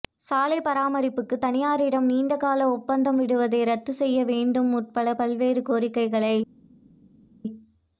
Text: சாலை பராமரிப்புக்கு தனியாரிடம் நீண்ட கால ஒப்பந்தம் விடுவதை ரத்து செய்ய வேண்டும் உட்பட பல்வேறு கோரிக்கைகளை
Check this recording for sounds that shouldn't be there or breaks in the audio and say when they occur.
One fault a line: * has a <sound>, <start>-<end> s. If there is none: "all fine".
all fine